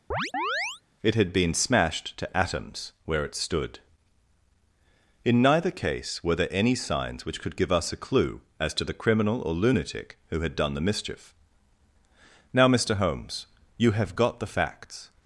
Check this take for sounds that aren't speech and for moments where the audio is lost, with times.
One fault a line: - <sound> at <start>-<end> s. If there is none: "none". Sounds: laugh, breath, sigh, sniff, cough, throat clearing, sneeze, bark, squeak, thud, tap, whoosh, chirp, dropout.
- chirp at 0.1-0.8 s